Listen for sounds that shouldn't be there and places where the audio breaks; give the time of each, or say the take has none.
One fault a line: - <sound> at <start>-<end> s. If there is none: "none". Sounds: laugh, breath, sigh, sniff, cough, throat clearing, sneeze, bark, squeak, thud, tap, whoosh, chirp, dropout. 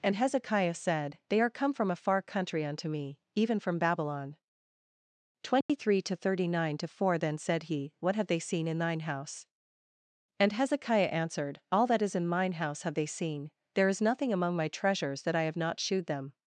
- dropout at 5.6-5.7 s